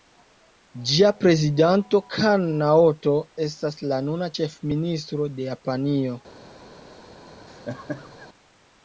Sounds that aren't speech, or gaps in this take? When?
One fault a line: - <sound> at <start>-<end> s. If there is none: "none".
- laugh at 7.5-8.3 s